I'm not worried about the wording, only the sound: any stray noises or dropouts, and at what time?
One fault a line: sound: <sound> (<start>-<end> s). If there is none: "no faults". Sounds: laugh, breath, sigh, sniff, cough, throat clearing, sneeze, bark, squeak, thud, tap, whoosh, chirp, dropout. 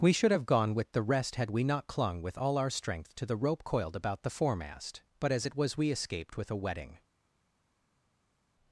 no faults